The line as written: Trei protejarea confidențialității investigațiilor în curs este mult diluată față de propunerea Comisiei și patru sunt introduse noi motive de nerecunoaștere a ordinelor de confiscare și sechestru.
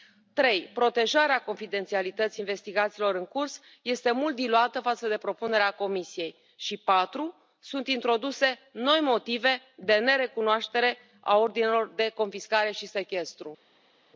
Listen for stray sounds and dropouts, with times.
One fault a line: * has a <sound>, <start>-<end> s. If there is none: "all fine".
all fine